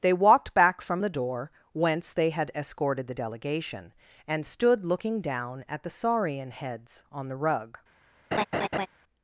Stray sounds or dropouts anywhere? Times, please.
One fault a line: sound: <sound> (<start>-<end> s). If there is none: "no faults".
sound: laugh (8.3-8.9 s)